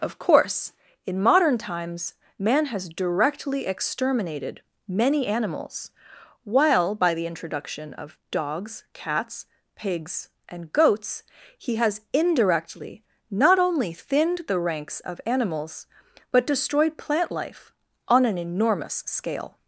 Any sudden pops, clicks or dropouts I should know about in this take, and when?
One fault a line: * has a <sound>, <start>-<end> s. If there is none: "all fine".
all fine